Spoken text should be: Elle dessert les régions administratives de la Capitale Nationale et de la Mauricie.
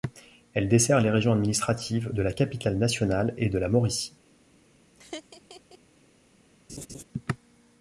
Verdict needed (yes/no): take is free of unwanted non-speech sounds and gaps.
no